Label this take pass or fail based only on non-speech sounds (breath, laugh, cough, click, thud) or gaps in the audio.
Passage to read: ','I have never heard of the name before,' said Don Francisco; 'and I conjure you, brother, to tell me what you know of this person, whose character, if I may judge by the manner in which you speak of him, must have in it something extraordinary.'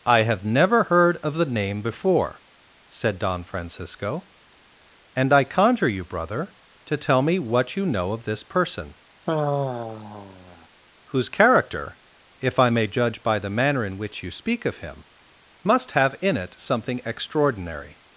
fail